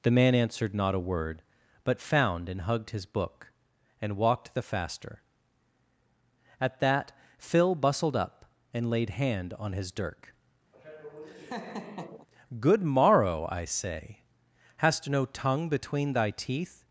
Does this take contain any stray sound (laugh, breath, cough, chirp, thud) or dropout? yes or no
yes